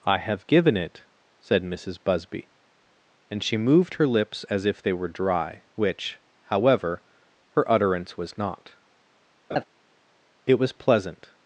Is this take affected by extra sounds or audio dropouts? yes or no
yes